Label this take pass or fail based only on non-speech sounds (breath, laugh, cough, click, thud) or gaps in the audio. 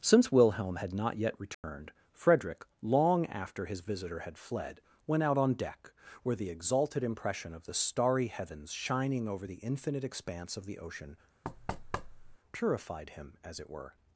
fail